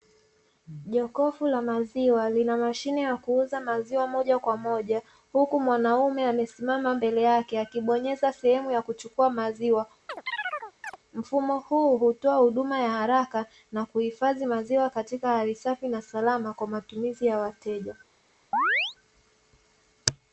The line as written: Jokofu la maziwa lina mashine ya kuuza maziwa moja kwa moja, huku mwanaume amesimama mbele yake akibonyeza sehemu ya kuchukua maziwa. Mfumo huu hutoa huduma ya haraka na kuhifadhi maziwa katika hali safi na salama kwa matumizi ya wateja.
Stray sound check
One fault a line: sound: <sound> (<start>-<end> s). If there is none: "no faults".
sound: chirp (10.1-11.0 s)
sound: chirp (18.5-19.0 s)